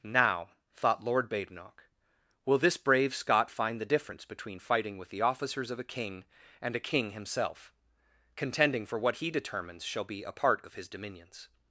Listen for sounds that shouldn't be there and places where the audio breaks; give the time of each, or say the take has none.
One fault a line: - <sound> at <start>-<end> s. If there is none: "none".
none